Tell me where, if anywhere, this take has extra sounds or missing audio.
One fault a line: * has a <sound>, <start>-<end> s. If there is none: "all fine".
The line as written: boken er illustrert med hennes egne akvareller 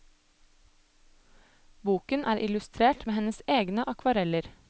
all fine